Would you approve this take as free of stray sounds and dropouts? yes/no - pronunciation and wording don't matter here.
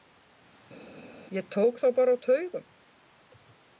yes